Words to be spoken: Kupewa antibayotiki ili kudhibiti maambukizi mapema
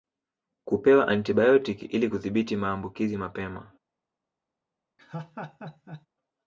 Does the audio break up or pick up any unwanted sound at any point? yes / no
yes